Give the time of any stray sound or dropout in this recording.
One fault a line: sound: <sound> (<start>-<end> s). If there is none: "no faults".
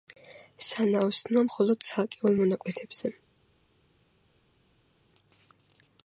no faults